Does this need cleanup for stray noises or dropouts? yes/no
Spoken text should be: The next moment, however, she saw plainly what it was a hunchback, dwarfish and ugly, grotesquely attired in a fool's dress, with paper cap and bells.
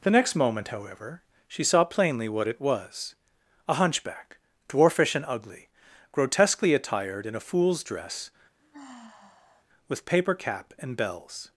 yes